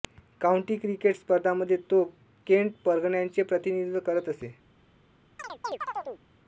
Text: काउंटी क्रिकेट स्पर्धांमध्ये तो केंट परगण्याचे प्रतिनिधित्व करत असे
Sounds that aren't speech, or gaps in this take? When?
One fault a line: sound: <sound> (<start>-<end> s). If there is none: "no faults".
sound: chirp (5.4-6.2 s)